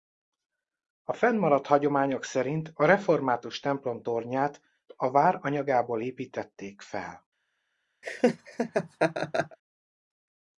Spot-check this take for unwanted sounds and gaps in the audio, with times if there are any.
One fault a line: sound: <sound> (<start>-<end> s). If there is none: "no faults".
sound: laugh (8.0-9.6 s)